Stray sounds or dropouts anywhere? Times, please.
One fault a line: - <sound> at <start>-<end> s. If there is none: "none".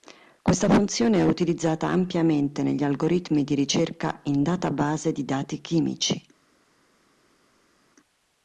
none